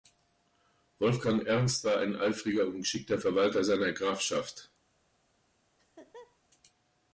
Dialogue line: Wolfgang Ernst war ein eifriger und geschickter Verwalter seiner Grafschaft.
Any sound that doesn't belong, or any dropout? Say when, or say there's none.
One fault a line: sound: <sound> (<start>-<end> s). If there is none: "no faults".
sound: laugh (5.8-6.4 s)